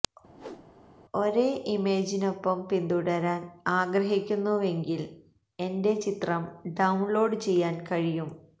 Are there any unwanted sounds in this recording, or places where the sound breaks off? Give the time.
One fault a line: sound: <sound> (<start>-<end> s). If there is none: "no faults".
sound: whoosh (0.3-0.7 s)